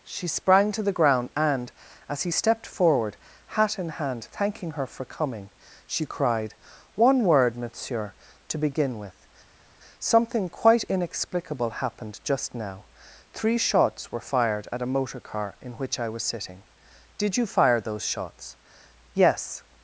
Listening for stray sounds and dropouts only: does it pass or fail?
pass